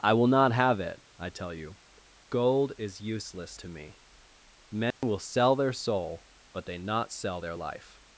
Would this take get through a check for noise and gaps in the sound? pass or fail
fail